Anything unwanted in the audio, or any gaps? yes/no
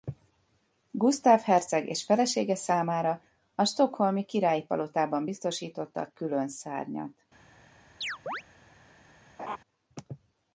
yes